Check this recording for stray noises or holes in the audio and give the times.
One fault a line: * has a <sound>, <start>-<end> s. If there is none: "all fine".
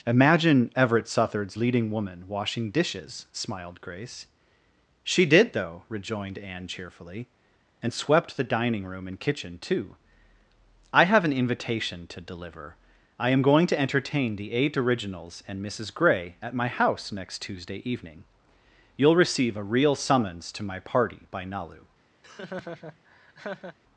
* has a laugh, 22.2-23.8 s